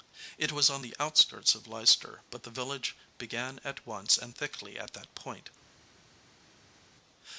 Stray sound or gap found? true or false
false